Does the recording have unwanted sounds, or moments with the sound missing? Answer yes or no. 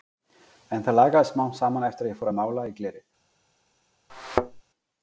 yes